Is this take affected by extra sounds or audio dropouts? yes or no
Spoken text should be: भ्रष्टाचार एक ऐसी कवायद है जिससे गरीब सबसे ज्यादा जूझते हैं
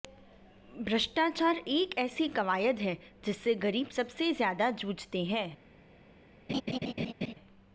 yes